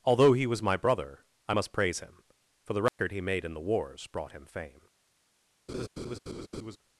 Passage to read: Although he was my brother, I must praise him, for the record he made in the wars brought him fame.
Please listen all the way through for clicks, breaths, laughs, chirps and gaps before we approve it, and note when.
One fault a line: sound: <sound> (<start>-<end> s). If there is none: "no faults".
sound: dropout (2.9-3.0 s)
sound: laugh (5.7-6.8 s)